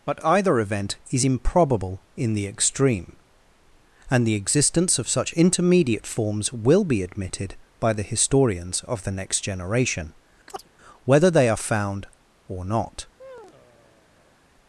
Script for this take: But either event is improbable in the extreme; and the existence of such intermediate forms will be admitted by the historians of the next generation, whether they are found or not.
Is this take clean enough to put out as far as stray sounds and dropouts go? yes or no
no